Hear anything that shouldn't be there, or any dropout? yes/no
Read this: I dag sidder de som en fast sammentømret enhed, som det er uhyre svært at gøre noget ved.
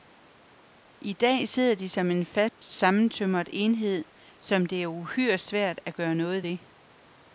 yes